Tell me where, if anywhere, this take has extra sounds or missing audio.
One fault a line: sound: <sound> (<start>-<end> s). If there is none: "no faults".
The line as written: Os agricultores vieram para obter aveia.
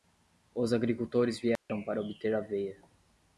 sound: dropout (1.6-1.7 s)